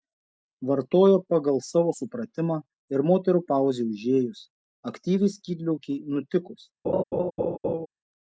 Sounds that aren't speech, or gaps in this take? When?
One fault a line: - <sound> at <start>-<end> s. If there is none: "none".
- laugh at 6.8-7.9 s